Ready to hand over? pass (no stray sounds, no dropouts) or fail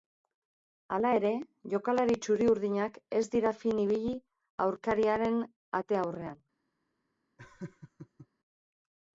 fail